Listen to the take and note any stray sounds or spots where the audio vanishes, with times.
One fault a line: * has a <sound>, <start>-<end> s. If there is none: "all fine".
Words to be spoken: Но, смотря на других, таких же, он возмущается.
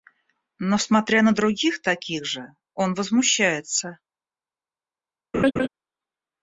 * has a laugh, 5.3-5.7 s